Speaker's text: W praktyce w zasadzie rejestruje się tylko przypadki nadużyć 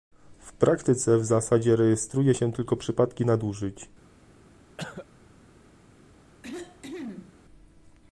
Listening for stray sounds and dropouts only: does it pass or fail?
fail